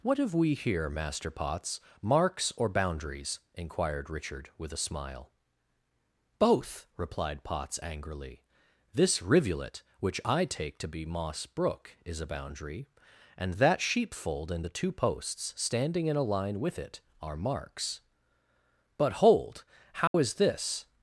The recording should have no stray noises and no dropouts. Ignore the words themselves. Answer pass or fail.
fail